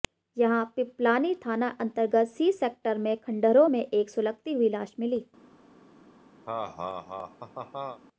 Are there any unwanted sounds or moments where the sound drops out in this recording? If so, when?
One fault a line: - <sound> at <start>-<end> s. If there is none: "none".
- laugh at 6.5-8.0 s